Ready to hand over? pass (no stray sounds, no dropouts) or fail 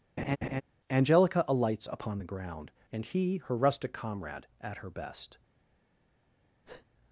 fail